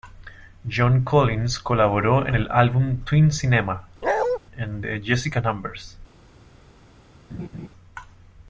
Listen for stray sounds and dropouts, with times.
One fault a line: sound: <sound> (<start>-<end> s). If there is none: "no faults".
sound: bark (4.0-4.4 s)
sound: laugh (7.3-7.7 s)